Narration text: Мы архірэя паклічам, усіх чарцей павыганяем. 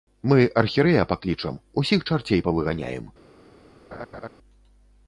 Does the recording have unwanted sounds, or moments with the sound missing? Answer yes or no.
yes